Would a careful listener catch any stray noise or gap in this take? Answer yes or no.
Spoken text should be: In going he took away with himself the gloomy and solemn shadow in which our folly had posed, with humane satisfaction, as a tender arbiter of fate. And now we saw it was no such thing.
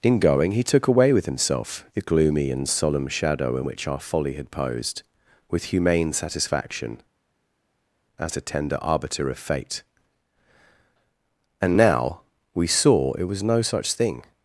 no